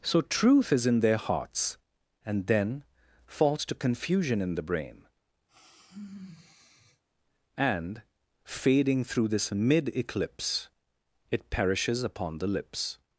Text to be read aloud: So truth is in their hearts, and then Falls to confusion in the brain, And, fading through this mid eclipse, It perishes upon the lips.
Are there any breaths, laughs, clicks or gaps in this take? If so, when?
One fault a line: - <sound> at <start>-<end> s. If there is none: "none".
- sigh at 5.5-7.0 s